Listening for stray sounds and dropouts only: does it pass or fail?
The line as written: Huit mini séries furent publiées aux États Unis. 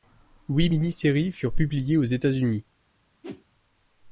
fail